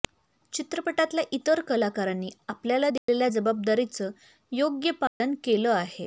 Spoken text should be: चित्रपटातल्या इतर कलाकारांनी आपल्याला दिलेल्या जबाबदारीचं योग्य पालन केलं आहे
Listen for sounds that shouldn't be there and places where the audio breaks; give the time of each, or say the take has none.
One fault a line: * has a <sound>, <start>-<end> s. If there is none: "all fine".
* has a dropout, 3.0-3.1 s
* has a dropout, 5.1-5.2 s